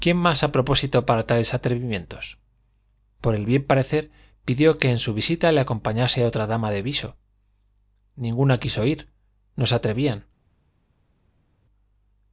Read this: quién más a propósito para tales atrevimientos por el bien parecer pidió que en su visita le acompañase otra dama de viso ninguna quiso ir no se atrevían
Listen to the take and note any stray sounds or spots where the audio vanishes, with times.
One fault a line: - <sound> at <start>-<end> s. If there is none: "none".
none